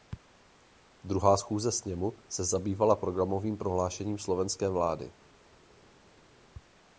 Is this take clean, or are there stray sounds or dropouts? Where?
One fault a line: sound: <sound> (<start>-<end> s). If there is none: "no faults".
no faults